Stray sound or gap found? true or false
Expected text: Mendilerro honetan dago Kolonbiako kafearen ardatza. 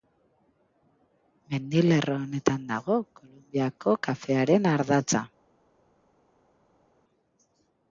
false